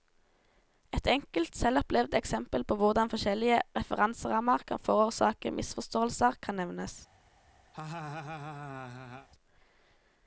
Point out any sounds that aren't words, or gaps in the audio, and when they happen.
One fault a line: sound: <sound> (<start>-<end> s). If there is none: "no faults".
sound: laugh (7.7-9.3 s)